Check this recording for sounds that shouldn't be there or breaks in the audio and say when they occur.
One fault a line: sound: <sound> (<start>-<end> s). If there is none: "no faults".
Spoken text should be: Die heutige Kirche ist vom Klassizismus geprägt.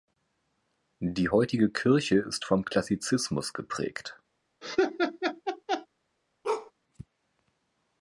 sound: laugh (4.6-5.9 s)
sound: bark (6.4-6.7 s)